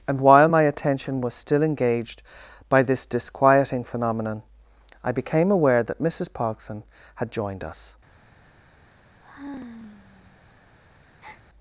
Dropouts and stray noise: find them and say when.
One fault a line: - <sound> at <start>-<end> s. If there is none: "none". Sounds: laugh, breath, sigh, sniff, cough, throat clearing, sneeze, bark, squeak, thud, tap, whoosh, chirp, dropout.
- sigh at 9.2-10.4 s
- breath at 11.2-11.4 s